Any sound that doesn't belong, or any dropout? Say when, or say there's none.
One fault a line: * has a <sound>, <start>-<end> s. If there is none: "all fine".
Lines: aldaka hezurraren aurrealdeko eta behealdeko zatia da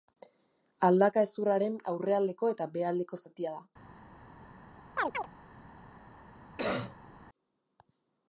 * has a chirp, 5.0-5.3 s
* has a cough, 6.6-7.1 s